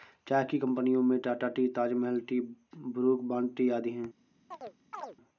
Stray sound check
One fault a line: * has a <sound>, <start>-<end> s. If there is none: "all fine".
* has a chirp, 4.5-5.2 s